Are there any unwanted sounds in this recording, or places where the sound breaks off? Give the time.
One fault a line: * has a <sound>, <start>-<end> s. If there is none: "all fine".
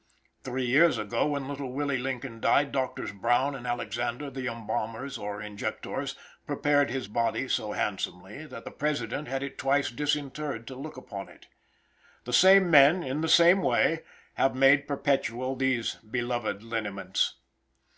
all fine